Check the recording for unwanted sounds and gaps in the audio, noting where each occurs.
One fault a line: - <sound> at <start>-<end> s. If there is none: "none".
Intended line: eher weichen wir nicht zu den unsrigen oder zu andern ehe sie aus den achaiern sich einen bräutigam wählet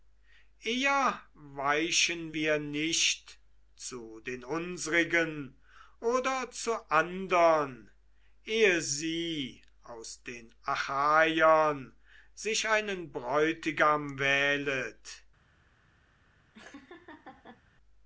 - laugh at 16.5-17.6 s